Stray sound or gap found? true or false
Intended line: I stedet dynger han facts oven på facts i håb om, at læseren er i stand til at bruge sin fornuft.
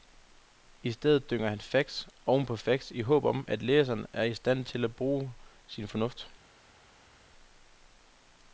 false